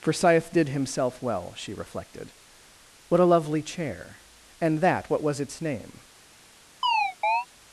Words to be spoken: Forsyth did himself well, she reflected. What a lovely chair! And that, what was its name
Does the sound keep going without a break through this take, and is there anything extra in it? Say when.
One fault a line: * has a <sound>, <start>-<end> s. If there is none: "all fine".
* has a chirp, 6.8-7.5 s